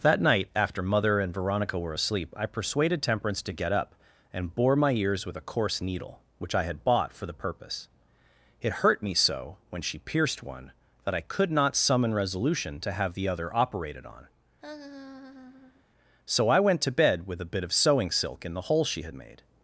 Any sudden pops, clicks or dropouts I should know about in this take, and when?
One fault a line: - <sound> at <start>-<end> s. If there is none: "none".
- laugh at 14.6-15.8 s